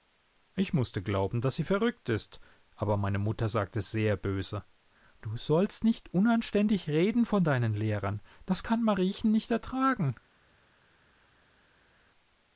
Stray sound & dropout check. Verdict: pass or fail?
pass